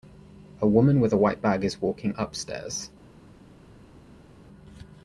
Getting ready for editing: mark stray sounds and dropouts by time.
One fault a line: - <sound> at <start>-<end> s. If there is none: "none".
none